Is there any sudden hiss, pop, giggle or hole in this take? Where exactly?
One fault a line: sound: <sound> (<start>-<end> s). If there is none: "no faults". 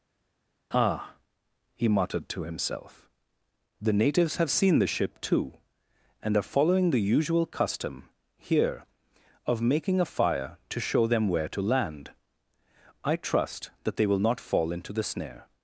no faults